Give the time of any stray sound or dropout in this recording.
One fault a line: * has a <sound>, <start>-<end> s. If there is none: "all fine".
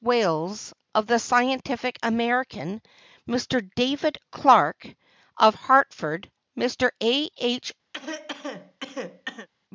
* has a cough, 7.9-9.5 s